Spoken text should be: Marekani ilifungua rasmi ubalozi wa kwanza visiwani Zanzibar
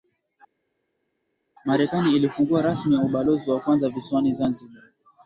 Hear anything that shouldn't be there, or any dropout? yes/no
no